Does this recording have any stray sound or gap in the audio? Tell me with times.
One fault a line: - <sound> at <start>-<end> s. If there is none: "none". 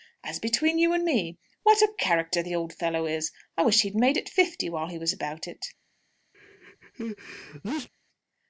- sneeze at 6.3-7.9 s